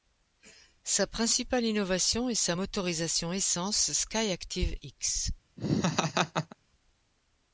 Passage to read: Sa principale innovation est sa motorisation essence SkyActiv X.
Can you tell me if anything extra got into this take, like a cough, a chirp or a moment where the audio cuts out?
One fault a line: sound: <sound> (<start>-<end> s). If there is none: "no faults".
sound: laugh (5.6-6.6 s)